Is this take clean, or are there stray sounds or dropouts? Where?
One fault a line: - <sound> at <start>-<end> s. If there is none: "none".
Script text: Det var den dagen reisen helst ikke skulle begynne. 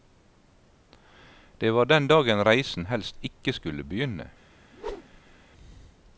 - whoosh at 4.7-5.4 s